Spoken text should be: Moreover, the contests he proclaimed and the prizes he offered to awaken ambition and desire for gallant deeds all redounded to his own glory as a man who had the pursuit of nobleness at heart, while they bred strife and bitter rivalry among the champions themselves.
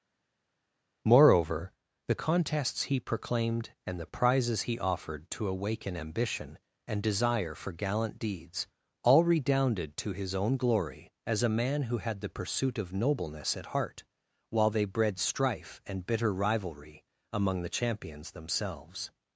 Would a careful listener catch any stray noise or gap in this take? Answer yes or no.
no